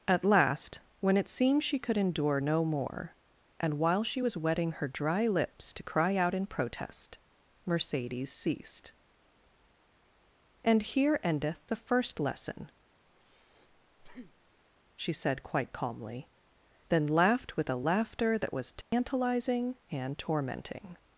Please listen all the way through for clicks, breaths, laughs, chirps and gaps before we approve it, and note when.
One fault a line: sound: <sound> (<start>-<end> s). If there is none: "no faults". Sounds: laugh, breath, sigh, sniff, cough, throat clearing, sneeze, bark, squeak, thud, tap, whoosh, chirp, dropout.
sound: breath (13.1-14.6 s)
sound: dropout (18.8-18.9 s)